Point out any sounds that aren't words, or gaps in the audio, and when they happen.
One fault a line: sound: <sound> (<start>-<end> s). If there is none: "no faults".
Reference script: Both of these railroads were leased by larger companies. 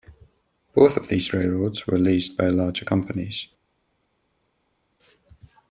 no faults